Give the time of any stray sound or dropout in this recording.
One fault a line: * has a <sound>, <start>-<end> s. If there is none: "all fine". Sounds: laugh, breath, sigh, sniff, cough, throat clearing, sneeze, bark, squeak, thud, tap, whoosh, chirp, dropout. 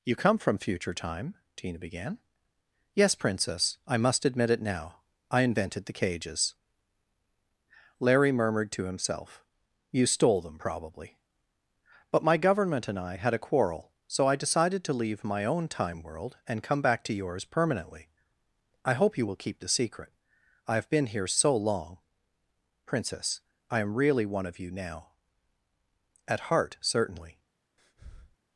* has a breath, 27.8-28.4 s